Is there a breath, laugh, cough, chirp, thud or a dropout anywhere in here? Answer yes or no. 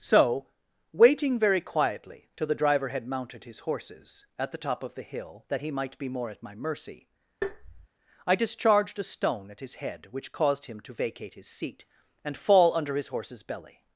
yes